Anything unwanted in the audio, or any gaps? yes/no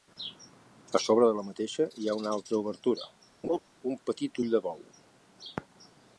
yes